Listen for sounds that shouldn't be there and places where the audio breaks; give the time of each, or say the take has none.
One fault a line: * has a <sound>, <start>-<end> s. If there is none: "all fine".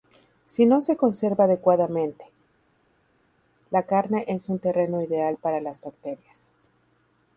all fine